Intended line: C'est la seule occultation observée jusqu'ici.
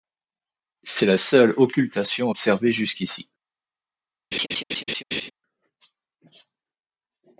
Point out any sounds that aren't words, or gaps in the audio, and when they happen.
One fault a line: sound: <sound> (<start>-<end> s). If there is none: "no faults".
sound: laugh (4.3-5.3 s)